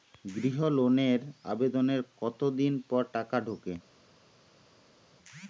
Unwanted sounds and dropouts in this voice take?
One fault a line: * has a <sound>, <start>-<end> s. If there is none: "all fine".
all fine